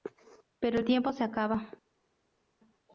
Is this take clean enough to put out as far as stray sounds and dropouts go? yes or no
yes